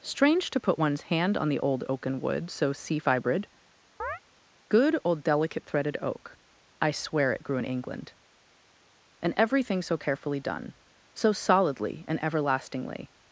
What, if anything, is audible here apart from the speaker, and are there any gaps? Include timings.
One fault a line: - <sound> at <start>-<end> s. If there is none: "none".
- chirp at 4.0-4.2 s